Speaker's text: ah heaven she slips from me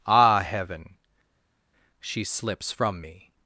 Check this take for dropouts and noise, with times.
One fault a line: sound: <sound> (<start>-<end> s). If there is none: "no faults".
no faults